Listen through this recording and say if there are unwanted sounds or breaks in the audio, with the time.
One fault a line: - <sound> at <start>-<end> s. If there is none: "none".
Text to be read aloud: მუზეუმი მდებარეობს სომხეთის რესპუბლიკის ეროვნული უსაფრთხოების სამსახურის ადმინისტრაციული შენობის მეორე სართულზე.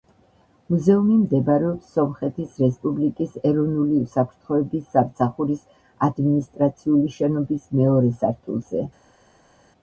none